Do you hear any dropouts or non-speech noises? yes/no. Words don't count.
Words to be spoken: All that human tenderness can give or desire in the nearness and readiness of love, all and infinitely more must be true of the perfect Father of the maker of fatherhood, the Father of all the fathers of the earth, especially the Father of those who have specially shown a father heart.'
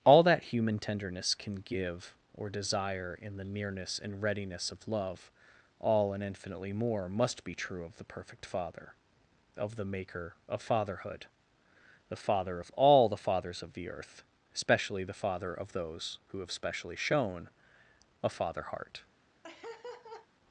yes